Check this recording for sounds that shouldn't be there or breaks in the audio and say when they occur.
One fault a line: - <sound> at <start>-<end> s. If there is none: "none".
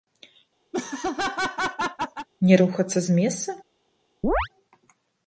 - laugh at 0.7-2.3 s
- chirp at 4.2-4.5 s